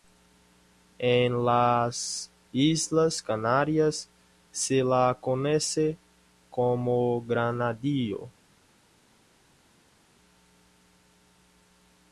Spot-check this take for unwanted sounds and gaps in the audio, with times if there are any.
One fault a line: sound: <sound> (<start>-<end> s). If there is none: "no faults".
no faults